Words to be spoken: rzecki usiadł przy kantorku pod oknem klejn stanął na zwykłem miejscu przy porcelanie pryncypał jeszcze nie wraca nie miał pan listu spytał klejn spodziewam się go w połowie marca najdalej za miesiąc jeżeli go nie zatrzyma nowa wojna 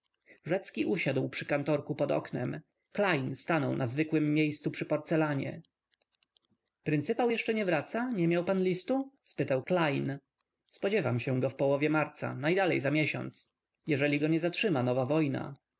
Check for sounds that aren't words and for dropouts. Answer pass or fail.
pass